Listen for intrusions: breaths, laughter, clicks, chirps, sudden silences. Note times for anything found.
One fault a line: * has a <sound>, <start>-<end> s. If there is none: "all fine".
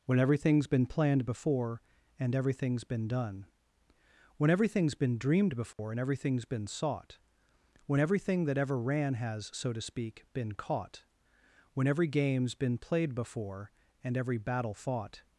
* has a dropout, 5.7-5.8 s